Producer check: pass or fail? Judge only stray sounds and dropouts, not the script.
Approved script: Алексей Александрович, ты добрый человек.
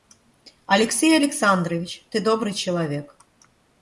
pass